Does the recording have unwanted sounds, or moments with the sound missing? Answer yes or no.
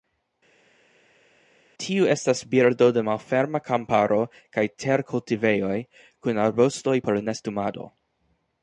no